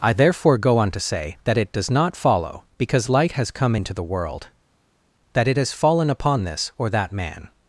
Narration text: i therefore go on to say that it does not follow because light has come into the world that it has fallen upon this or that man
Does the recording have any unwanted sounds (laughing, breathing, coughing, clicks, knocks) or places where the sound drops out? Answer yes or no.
no